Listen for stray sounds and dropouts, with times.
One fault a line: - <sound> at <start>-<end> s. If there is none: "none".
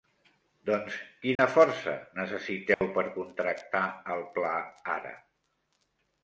- dropout at 1.3-1.4 s
- dropout at 2.7-2.8 s